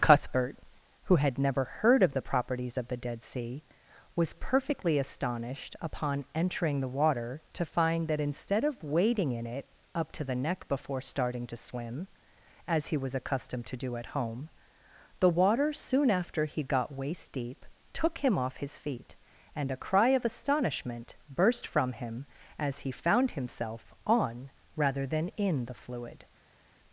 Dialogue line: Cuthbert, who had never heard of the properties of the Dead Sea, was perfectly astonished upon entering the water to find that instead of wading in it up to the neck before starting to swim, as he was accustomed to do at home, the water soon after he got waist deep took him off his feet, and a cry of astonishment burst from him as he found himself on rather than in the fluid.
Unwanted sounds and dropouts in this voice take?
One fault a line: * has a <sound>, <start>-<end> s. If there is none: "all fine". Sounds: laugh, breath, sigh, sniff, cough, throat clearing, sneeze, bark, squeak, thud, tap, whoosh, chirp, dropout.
all fine